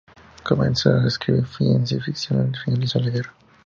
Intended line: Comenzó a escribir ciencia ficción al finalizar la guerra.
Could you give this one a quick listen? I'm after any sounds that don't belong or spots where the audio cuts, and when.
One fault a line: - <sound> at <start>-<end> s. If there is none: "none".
none